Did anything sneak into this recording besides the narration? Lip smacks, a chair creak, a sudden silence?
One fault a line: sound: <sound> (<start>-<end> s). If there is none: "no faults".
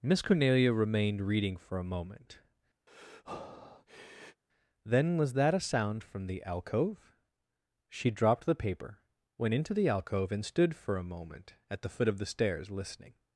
sound: breath (2.9-4.4 s)